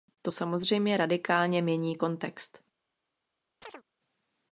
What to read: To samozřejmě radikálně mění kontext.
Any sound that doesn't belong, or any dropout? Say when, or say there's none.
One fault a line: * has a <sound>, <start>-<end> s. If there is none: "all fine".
* has a chirp, 3.6-3.8 s